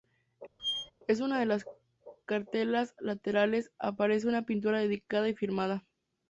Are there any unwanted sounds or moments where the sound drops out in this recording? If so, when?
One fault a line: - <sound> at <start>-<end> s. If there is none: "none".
- squeak at 0.6-0.9 s